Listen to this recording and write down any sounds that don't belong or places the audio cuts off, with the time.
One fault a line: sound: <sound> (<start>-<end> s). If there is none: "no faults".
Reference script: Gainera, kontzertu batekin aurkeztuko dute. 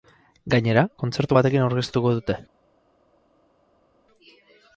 no faults